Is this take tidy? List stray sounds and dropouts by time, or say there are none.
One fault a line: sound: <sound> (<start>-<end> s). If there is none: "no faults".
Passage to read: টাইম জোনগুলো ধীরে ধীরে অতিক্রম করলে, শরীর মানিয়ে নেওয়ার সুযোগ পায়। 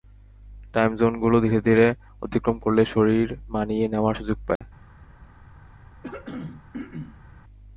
sound: dropout (4.6-4.6 s)
sound: throat clearing (6.0-7.3 s)